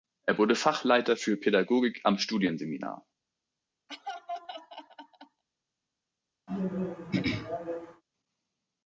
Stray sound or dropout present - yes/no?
yes